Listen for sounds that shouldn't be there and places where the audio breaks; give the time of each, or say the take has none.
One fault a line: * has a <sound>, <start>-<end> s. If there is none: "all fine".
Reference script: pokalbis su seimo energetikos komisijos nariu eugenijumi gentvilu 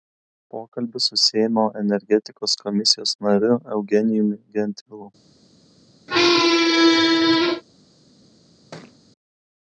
* has a squeak, 6.1-7.6 s
* has a thud, 8.7-9.0 s